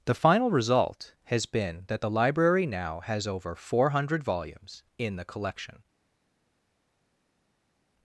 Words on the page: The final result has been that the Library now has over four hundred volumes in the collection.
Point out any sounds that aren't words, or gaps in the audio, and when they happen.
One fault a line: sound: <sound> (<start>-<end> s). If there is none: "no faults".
no faults